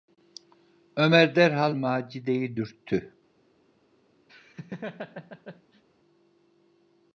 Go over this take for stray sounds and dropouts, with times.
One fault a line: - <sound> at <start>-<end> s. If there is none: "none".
- laugh at 4.3-5.8 s